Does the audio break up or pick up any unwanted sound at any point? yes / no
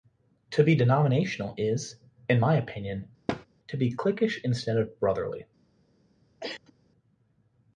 yes